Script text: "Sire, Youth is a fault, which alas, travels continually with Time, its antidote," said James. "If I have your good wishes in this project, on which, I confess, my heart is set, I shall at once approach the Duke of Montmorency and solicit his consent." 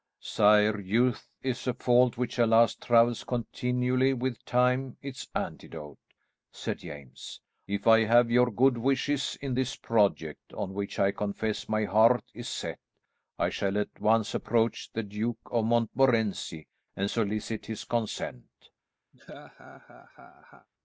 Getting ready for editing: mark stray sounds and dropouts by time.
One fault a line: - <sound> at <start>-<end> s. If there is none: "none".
- laugh at 19.1-20.7 s